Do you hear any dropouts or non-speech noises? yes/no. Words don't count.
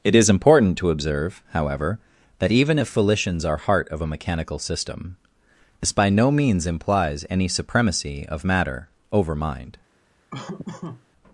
yes